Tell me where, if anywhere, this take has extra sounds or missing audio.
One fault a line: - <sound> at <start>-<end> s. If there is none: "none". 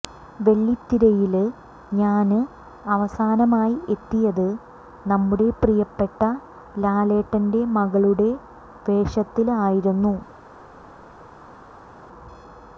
none